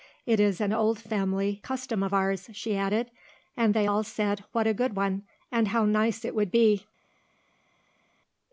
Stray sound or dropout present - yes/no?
no